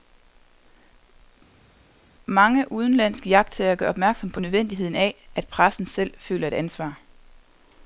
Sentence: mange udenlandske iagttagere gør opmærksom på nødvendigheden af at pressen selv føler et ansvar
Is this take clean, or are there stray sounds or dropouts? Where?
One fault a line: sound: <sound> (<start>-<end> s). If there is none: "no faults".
no faults